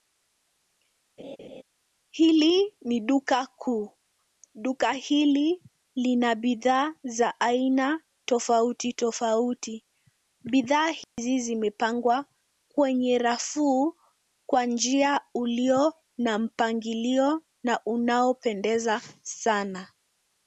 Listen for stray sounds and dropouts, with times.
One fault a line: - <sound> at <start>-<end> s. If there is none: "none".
- laugh at 1.2-1.6 s
- dropout at 11.0-11.2 s